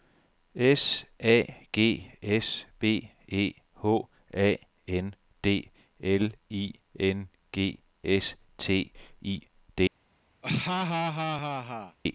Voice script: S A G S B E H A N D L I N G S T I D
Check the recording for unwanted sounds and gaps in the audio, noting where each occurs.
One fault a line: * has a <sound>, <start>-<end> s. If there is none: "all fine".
* has a laugh, 10.4-12.0 s